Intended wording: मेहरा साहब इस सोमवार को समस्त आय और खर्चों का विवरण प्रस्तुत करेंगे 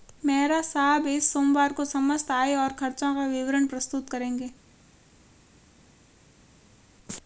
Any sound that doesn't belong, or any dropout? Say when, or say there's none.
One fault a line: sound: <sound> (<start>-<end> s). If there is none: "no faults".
no faults